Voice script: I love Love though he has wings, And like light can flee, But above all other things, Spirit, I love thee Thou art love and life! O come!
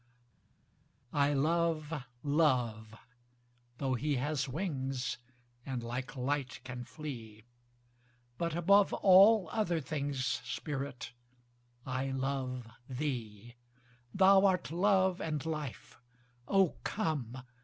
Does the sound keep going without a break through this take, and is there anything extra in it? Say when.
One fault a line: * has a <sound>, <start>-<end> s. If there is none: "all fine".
all fine